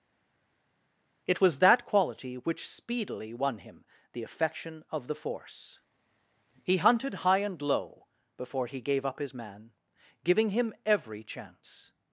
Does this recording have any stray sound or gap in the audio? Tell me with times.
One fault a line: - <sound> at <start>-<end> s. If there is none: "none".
none